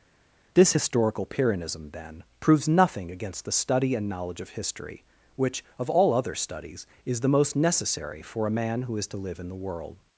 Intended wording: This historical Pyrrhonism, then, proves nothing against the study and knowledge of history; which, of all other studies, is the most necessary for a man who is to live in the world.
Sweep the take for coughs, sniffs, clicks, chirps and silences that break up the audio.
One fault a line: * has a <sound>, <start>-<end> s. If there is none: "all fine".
all fine